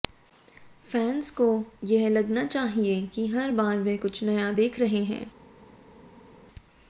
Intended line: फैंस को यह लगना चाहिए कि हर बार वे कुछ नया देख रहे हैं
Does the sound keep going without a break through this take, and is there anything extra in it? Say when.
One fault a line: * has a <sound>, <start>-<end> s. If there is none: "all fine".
all fine